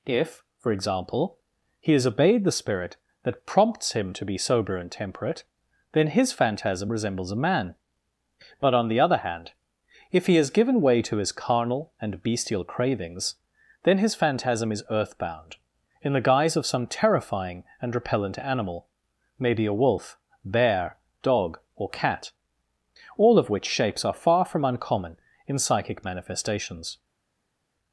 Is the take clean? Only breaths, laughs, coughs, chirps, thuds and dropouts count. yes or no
yes